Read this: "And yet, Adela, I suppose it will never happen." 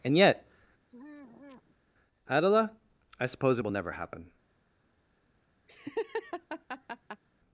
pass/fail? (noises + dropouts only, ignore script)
fail